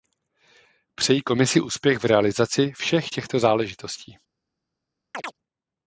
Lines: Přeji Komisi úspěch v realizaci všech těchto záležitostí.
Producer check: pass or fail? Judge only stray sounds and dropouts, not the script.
fail